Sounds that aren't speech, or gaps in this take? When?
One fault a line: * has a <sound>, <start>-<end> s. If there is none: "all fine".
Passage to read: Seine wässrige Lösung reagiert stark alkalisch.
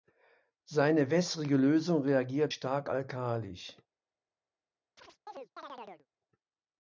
* has a chirp, 5.0-6.1 s